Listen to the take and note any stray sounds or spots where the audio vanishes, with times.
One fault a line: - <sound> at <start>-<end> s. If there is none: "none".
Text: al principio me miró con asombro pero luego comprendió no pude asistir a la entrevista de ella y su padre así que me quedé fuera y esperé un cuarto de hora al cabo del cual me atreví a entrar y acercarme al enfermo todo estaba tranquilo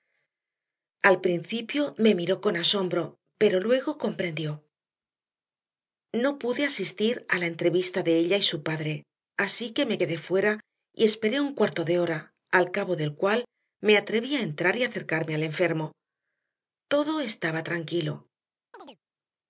- chirp at 18.7-19.0 s